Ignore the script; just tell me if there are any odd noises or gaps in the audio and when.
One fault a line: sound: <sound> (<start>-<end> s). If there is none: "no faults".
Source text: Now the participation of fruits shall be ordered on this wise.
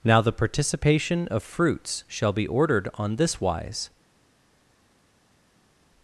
no faults